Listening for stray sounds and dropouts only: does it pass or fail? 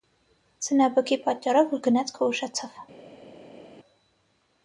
pass